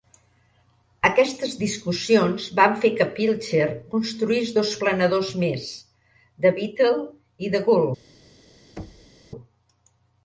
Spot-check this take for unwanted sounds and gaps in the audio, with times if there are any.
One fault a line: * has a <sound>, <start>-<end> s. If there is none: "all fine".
* has a thud, 8.8-9.1 s